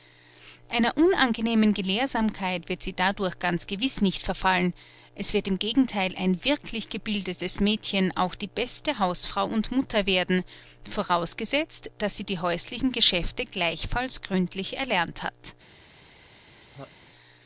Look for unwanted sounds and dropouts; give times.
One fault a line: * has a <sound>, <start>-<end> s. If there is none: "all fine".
* has a laugh, 16.5-16.9 s